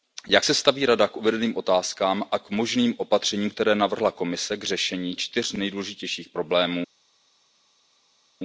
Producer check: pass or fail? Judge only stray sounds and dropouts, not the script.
pass